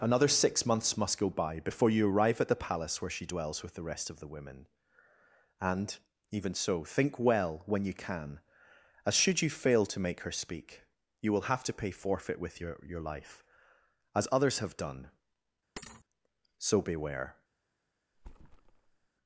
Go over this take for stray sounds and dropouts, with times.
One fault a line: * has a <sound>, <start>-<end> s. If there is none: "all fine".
* has a thud, 15.8-16.0 s
* has a thud, 18.1-19.1 s